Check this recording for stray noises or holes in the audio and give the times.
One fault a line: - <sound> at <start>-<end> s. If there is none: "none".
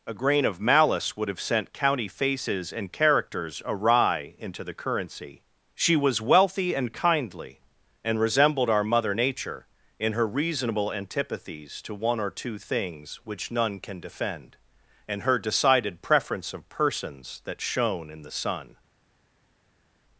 none